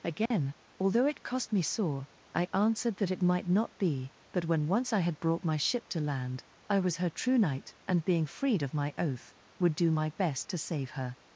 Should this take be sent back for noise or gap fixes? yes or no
yes